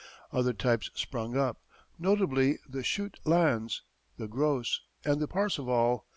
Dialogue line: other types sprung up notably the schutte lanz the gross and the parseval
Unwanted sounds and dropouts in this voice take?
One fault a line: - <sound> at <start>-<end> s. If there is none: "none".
none